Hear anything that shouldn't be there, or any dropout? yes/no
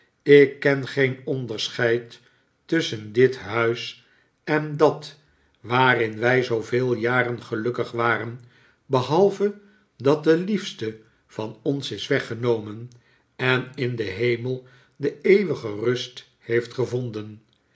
no